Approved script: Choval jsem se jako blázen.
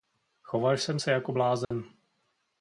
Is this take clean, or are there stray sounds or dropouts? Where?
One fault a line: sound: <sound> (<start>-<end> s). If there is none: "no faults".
sound: dropout (1.6-1.7 s)